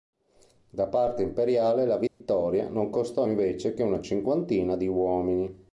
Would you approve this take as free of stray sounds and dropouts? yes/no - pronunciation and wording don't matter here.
no